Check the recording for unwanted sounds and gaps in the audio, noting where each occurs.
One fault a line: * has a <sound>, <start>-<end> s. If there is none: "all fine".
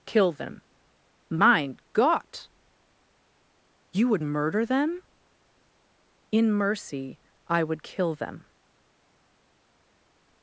all fine